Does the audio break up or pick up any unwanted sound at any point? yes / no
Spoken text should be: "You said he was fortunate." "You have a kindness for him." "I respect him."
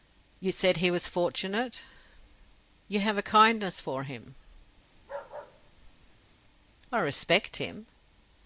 yes